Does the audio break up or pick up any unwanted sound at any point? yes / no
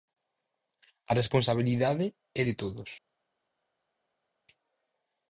no